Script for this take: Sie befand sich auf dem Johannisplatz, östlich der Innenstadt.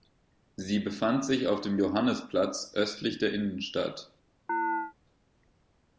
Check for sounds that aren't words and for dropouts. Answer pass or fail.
fail